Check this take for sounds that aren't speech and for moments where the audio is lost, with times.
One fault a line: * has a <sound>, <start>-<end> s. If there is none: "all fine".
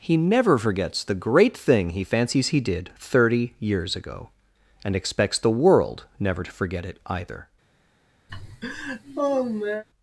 * has a laugh, 8.3-9.8 s